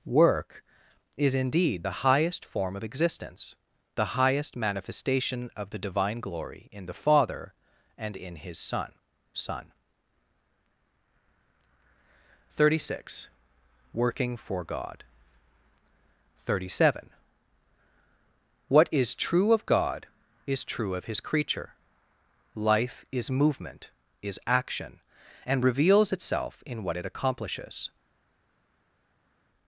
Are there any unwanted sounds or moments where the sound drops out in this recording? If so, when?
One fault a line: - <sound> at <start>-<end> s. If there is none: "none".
none